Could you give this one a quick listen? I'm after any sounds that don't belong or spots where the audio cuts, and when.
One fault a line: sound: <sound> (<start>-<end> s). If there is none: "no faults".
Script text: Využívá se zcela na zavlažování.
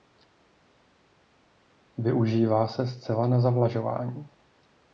no faults